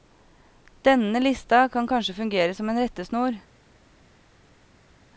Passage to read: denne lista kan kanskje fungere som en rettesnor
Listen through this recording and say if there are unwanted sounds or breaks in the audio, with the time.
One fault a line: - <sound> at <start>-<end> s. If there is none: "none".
none